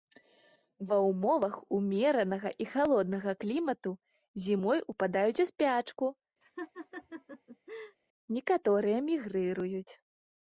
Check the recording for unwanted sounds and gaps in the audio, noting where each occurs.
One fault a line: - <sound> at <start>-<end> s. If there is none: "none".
- laugh at 6.4-8.0 s